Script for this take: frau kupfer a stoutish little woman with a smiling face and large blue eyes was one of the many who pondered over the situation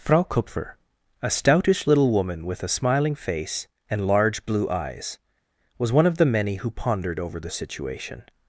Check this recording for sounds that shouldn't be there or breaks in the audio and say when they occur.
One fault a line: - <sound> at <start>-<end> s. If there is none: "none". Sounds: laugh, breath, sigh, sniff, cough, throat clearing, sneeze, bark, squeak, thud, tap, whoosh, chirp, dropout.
none